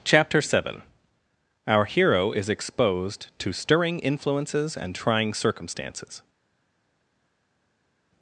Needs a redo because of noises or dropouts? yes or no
no